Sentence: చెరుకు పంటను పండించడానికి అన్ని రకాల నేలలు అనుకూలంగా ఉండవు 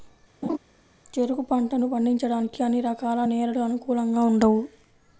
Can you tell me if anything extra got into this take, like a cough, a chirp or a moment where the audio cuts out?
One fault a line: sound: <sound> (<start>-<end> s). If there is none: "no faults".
sound: laugh (0.4-0.6 s)